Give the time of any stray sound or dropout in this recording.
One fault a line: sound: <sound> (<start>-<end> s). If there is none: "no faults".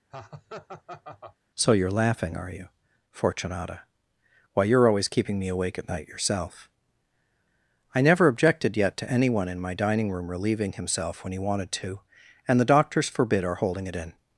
sound: laugh (0.1-1.4 s)